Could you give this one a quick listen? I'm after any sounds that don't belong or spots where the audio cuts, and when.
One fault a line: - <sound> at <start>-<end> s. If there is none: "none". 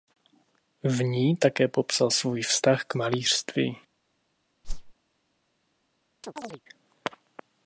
- whoosh at 4.6-4.9 s
- chirp at 6.2-6.6 s